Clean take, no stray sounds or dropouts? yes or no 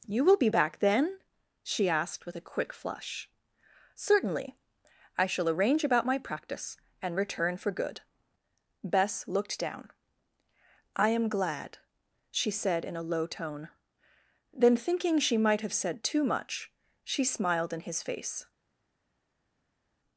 yes